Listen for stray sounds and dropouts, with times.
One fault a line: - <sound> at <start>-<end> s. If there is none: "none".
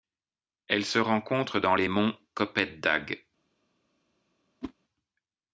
- whoosh at 4.6-4.7 s